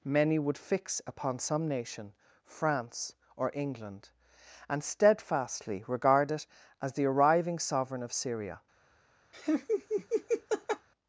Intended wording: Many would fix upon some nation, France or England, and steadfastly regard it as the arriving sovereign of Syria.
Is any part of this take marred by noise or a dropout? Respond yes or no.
yes